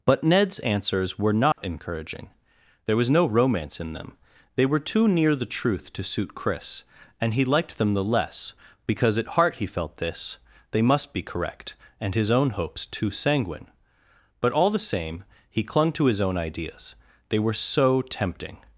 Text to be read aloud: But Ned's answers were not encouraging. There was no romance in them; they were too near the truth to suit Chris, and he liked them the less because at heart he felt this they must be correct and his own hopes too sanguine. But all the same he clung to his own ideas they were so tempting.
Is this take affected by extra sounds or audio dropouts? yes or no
yes